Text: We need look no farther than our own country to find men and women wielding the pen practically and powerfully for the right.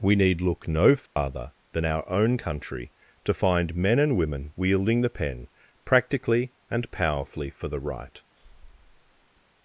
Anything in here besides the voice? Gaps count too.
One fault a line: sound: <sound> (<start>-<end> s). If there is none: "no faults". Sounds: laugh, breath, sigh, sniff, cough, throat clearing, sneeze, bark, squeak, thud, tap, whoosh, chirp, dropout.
sound: dropout (1.1-1.2 s)
sound: breath (8.3-9.4 s)